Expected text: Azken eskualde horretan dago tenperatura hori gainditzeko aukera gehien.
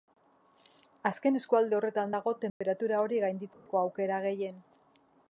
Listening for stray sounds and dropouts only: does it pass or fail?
fail